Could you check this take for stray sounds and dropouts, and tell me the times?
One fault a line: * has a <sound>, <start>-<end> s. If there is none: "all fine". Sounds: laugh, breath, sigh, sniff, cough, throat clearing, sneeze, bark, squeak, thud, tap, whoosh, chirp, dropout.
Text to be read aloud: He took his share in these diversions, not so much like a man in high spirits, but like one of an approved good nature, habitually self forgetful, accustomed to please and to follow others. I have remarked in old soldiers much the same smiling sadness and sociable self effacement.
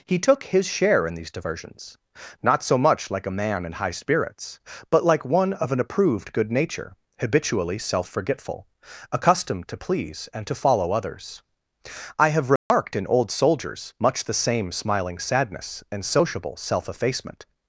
* has a dropout, 12.6-12.7 s